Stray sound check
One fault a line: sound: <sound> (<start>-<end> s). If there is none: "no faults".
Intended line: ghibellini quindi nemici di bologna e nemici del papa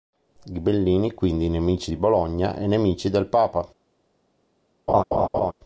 sound: laugh (4.9-5.5 s)